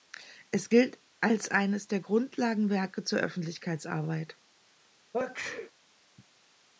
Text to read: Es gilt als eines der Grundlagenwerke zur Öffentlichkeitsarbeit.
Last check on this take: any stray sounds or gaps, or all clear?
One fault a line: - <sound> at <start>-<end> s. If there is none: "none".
- sneeze at 5.1-5.7 s